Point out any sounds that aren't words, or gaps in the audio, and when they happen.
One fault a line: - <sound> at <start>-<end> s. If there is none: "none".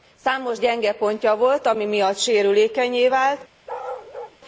- bark at 3.7-4.4 s